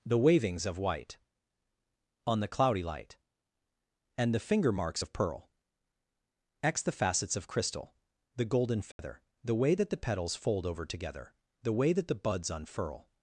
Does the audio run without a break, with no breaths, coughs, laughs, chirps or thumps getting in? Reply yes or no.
no